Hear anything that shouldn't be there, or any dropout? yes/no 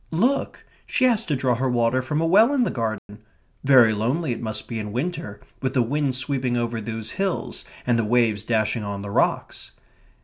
yes